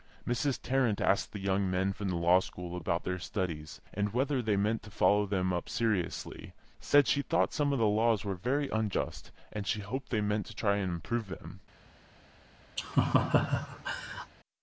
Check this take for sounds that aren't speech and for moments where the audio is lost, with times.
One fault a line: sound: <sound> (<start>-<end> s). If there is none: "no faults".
sound: laugh (12.8-14.3 s)